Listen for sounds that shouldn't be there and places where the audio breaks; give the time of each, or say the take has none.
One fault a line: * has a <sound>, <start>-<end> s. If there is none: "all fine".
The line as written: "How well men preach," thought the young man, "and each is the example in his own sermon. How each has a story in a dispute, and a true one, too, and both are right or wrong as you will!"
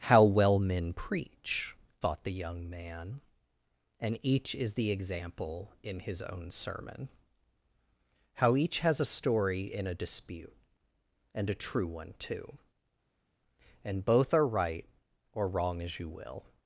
all fine